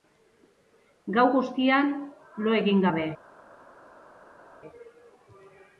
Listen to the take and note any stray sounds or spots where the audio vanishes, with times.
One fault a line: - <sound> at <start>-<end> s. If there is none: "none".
none